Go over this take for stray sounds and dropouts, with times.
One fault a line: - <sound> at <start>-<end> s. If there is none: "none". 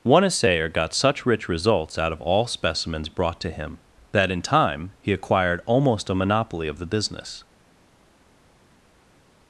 none